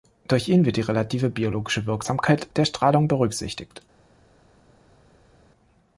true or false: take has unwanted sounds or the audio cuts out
false